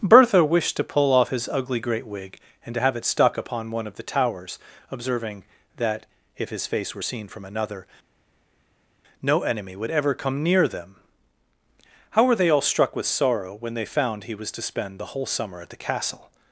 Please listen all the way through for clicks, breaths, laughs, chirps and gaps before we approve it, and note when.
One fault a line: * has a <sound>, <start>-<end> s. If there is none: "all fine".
all fine